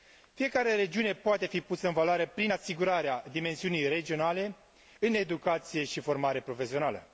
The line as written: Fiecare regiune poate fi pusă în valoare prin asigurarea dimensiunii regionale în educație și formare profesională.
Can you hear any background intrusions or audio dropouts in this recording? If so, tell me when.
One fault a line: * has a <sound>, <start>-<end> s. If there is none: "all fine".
all fine